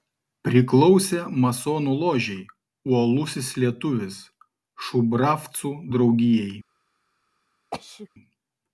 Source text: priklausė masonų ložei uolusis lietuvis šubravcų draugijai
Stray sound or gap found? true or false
true